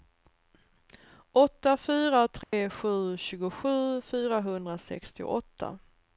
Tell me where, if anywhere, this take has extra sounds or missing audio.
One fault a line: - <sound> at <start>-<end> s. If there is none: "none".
- dropout at 2.4-2.5 s